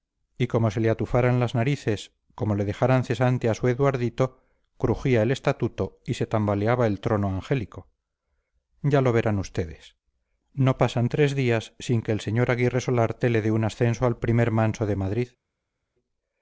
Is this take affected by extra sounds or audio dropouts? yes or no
no